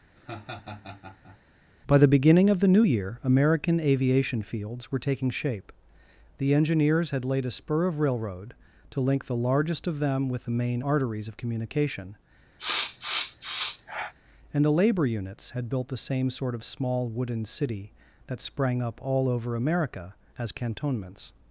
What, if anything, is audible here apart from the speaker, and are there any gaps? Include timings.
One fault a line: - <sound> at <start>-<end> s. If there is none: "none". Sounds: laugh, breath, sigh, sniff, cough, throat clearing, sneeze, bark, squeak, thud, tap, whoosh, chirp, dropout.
- laugh at 0.2-1.4 s
- sniff at 12.6-14.1 s